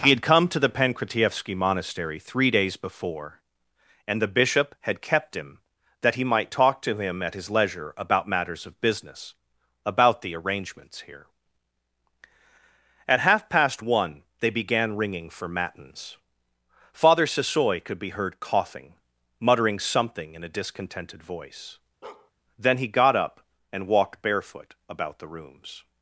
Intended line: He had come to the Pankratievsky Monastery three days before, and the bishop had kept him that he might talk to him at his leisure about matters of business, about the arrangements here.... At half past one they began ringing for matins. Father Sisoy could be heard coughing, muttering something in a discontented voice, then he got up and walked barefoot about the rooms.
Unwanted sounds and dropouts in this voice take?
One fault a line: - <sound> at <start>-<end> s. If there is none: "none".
- bark at 22.0-22.3 s